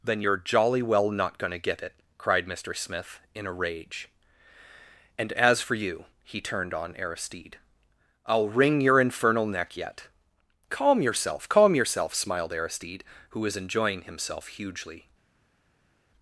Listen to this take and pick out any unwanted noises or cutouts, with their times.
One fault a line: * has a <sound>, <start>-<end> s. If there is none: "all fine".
all fine